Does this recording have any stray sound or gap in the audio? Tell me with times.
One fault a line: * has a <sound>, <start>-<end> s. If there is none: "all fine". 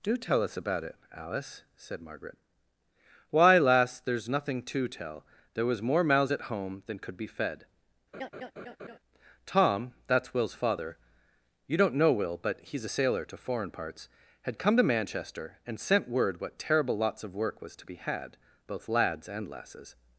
* has a laugh, 8.1-9.0 s